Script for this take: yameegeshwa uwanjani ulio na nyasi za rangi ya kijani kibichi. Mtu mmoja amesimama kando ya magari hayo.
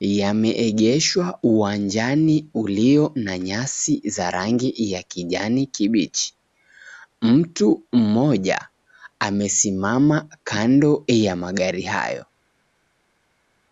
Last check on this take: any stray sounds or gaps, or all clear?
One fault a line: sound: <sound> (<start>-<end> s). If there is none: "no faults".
no faults